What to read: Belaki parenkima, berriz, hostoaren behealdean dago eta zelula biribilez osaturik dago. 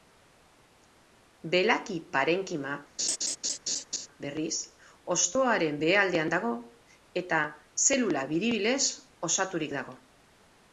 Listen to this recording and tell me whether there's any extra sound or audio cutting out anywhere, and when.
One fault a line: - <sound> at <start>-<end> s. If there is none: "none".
- laugh at 3.0-4.1 s